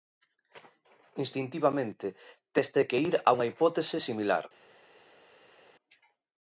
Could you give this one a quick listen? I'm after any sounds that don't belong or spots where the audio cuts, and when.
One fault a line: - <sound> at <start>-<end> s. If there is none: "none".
none